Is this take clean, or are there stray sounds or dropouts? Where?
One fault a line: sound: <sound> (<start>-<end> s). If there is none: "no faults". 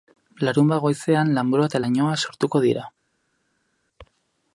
no faults